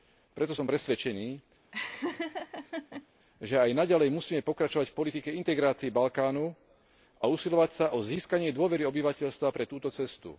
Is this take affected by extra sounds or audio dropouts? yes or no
yes